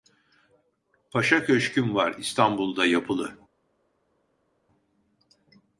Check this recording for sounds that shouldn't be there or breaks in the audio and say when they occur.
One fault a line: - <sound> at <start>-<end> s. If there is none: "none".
none